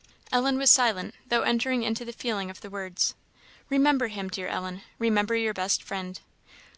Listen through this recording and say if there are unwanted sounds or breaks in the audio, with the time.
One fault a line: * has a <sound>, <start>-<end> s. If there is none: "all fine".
all fine